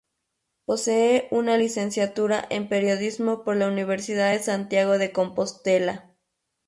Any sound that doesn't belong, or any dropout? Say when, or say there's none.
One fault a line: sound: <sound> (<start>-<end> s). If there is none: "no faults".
no faults